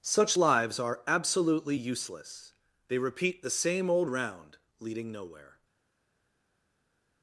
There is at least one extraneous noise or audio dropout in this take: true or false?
false